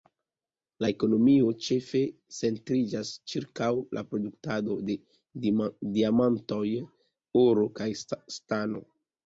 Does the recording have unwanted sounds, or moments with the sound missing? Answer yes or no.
no